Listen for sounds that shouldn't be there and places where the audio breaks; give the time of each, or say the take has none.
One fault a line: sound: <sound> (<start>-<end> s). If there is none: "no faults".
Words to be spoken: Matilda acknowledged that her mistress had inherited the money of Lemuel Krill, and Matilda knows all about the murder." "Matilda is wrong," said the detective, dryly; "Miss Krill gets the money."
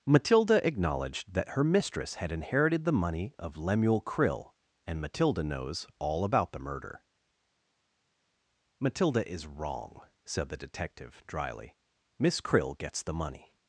no faults